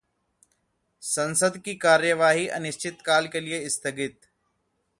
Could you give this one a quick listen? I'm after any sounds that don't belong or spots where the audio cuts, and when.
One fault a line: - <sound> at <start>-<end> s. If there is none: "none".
none